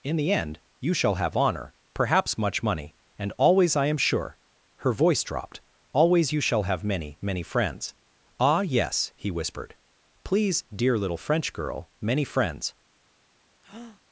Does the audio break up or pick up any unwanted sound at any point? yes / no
yes